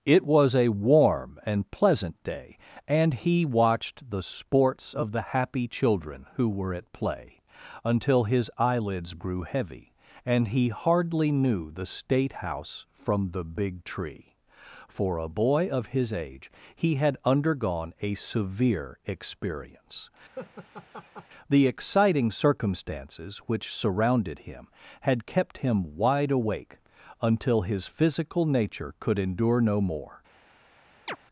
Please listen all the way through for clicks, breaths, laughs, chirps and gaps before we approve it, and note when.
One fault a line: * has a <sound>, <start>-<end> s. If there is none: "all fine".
* has a laugh, 20.3-21.3 s
* has a chirp, 31.1-31.2 s